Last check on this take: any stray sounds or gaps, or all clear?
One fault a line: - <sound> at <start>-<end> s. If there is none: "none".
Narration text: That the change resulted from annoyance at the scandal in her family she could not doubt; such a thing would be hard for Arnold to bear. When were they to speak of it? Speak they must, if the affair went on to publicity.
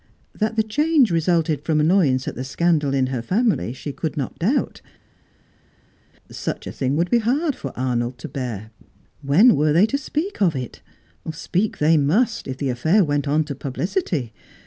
none